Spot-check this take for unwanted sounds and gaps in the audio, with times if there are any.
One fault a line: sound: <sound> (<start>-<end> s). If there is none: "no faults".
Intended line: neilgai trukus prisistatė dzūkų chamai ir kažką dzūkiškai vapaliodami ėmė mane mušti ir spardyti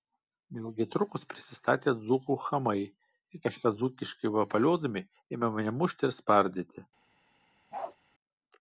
sound: bark (7.7-8.0 s)